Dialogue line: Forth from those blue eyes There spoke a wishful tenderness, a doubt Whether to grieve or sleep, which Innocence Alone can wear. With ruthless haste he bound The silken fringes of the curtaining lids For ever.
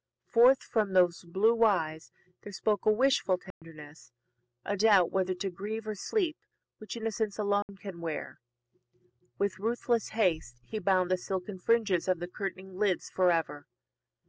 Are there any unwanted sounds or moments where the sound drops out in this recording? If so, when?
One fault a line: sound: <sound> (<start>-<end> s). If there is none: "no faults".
sound: dropout (3.5-3.6 s)
sound: dropout (7.6-7.7 s)